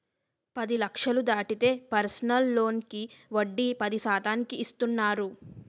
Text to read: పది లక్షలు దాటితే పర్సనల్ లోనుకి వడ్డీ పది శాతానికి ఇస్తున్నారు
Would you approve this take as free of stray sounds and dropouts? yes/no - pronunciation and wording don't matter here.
yes